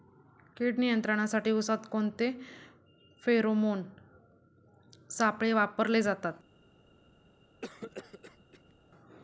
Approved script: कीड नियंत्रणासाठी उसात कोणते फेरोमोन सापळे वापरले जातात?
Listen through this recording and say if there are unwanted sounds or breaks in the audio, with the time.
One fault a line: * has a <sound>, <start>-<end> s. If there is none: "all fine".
* has a cough, 7.6-8.7 s